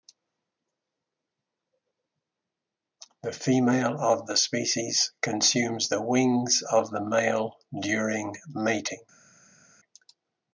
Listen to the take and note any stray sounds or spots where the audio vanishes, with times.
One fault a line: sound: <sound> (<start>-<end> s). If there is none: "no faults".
no faults